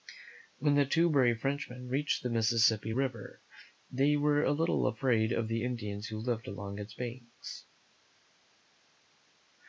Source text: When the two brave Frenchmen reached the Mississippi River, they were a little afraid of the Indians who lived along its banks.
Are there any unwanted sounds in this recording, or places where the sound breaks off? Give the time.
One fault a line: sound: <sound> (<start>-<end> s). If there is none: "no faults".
no faults